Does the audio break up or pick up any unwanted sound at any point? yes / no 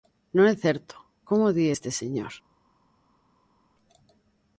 no